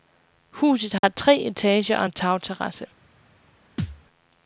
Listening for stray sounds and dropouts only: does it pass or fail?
fail